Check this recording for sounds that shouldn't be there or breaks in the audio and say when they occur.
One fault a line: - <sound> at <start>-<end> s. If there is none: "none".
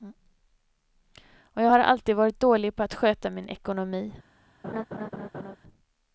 - laugh at 4.6-5.6 s